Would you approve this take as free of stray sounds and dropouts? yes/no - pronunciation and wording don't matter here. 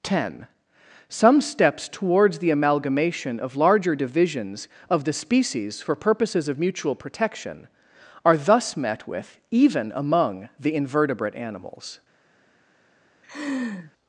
no